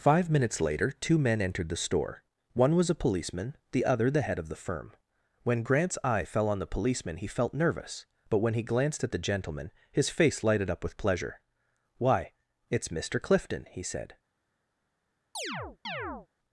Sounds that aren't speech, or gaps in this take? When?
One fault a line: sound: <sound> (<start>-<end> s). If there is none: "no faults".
sound: chirp (15.3-16.3 s)